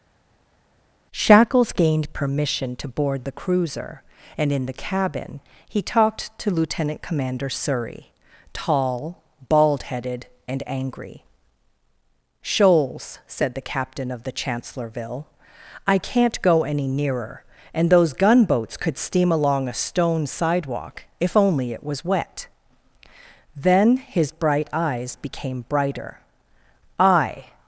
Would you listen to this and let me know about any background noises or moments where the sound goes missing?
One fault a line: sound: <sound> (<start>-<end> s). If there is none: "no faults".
no faults